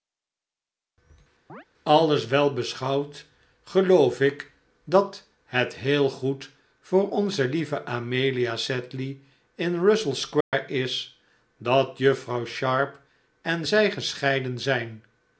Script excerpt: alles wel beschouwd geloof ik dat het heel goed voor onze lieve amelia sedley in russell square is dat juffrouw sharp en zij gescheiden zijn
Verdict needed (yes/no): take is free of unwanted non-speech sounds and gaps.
no